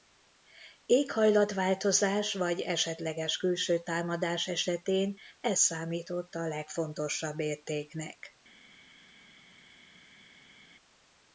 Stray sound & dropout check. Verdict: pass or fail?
pass